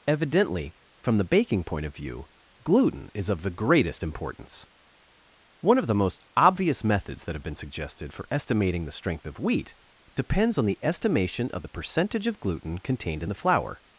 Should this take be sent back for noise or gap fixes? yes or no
no